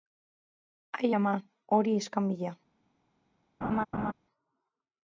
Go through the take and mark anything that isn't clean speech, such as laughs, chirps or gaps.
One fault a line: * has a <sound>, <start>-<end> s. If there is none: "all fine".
* has a laugh, 3.6-4.1 s